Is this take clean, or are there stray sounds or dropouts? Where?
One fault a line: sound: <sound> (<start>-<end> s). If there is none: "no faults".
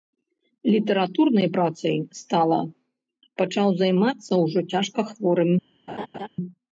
sound: laugh (5.9-6.3 s)